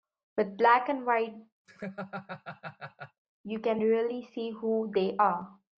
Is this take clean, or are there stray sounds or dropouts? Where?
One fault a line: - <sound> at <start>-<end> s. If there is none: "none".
- laugh at 1.6-3.2 s